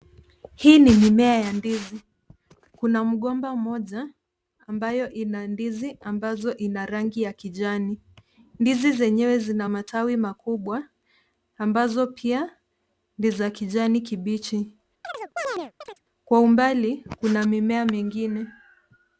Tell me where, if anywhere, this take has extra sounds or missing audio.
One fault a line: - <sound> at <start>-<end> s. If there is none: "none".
- chirp at 15.0-16.0 s